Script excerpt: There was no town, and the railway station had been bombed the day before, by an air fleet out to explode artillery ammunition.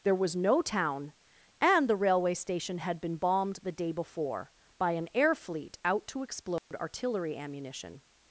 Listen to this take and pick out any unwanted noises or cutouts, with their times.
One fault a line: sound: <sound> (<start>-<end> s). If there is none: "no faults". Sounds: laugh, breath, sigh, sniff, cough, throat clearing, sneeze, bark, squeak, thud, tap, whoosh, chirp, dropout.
sound: dropout (6.6-6.7 s)